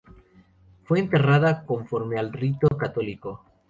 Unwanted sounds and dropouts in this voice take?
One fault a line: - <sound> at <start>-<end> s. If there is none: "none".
- dropout at 2.7-2.7 s